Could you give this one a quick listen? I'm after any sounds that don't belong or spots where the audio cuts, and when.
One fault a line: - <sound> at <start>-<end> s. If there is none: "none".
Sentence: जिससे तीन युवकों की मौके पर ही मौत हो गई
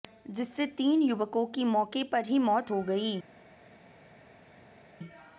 none